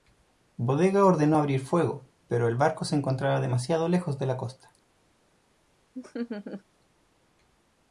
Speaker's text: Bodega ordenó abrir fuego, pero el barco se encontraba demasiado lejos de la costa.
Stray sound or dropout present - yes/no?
yes